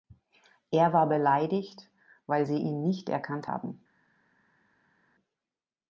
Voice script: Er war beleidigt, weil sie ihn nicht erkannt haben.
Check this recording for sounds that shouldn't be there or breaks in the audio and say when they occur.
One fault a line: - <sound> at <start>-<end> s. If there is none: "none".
none